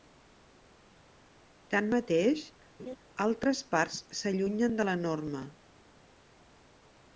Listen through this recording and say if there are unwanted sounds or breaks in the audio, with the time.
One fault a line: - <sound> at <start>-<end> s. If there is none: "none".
- laugh at 2.8-3.0 s